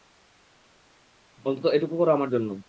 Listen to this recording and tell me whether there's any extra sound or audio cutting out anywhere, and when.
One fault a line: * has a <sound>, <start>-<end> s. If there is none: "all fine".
all fine